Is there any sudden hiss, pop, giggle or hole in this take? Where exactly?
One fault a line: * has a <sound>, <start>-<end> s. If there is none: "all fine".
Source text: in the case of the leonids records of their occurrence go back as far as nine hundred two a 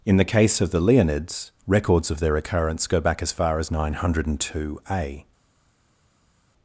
all fine